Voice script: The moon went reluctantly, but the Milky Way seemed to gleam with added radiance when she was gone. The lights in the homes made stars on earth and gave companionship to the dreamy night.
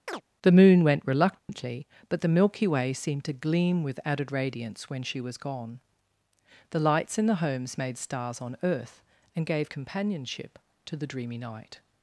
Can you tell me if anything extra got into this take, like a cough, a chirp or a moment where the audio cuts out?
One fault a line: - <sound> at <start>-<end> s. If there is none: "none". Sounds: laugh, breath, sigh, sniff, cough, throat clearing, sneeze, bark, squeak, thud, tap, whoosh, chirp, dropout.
- chirp at 0.1-0.2 s
- dropout at 1.4-1.5 s